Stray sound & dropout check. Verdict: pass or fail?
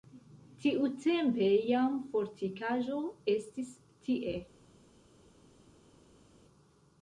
pass